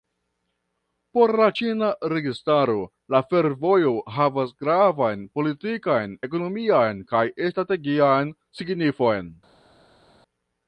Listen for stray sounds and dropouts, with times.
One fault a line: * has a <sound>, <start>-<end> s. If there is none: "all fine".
all fine